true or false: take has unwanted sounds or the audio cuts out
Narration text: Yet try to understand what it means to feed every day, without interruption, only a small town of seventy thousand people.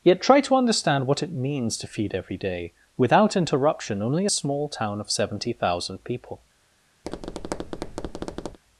true